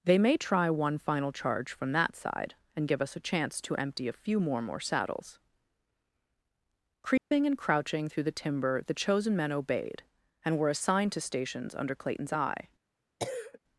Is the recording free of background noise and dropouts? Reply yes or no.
no